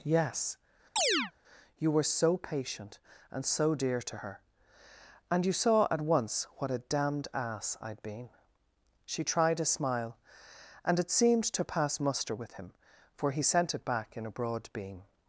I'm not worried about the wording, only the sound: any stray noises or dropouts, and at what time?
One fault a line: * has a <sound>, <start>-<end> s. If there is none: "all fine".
* has a chirp, 1.0-1.3 s